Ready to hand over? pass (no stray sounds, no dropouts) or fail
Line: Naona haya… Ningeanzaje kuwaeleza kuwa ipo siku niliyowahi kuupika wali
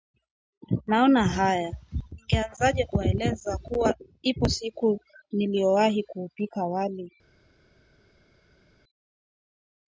pass